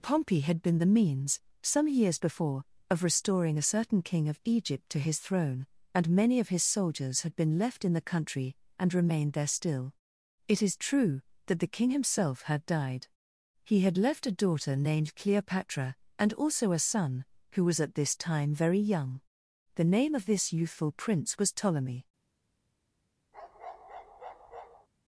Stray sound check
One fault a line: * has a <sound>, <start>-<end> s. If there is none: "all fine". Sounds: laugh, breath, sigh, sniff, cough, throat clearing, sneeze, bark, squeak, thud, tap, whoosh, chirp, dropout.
* has a bark, 23.3-24.9 s